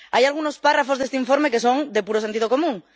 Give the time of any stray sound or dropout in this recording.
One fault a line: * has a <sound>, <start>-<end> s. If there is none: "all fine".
all fine